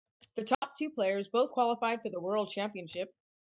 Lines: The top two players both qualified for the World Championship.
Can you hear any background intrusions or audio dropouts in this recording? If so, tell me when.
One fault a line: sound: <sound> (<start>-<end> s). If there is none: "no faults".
sound: dropout (0.5-0.6 s)